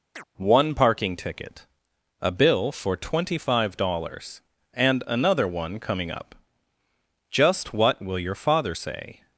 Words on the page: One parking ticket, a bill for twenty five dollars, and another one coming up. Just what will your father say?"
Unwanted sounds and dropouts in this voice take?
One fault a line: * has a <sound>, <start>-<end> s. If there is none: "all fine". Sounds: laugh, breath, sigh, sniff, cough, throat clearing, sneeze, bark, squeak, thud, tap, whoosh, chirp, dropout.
* has a chirp, 0.1-0.3 s